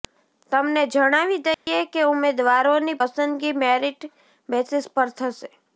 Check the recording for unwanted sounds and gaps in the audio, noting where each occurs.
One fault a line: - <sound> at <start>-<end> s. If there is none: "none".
- dropout at 1.5-1.7 s